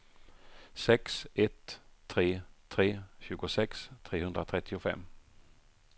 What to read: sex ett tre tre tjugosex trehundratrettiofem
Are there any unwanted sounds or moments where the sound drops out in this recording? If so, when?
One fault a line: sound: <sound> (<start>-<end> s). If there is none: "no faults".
no faults